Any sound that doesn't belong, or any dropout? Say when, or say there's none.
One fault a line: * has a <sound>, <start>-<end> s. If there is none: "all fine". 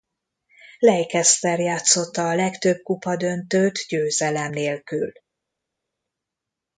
all fine